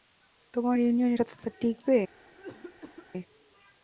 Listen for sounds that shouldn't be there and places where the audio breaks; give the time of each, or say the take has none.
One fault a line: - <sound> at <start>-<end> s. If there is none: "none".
- cough at 2.3-3.1 s